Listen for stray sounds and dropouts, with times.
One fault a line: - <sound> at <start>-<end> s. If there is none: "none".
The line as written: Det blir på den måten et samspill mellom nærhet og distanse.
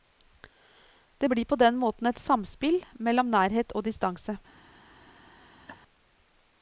- laugh at 5.7-5.8 s